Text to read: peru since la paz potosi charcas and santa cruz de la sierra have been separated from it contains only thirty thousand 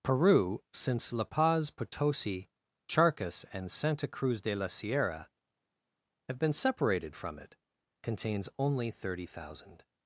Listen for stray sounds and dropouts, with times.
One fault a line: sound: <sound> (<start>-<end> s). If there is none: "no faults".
no faults